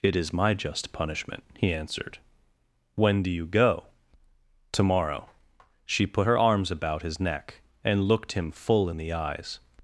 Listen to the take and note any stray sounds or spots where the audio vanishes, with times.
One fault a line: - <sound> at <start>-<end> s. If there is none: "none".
none